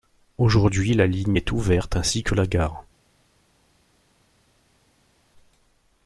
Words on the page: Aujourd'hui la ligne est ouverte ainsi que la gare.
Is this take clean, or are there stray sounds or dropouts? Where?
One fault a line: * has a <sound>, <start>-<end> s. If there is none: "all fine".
all fine